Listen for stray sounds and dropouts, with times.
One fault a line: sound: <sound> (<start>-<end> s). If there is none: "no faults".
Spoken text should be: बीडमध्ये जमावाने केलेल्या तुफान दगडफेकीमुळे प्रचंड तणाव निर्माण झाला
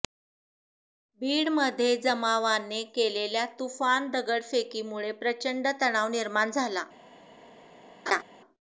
sound: laugh (8.1-8.2 s)